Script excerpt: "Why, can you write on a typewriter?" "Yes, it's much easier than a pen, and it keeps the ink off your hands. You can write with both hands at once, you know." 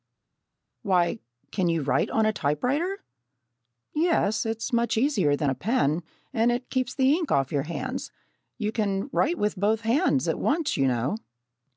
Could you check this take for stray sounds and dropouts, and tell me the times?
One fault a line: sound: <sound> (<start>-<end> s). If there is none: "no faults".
no faults